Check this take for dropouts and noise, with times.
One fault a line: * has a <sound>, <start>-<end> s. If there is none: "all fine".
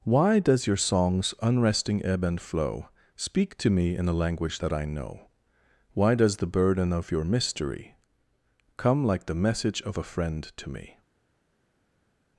all fine